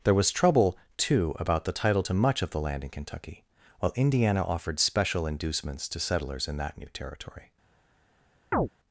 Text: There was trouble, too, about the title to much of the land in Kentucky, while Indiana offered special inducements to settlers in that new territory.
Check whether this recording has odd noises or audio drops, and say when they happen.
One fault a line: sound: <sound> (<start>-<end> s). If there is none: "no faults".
sound: chirp (8.5-8.7 s)